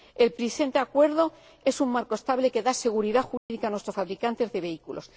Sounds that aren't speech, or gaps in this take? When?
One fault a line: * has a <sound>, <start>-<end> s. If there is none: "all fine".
* has a dropout, 3.4-3.5 s